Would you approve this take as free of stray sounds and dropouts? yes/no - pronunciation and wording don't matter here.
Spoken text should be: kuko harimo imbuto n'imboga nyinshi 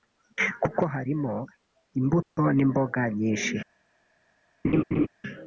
no